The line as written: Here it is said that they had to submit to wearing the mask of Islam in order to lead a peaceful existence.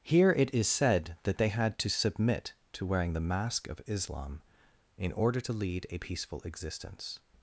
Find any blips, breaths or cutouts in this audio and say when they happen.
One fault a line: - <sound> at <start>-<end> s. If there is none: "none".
none